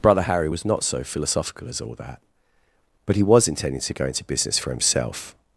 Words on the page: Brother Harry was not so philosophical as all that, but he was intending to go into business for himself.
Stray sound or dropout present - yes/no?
no